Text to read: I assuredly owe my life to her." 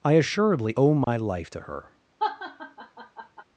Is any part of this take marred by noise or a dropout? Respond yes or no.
yes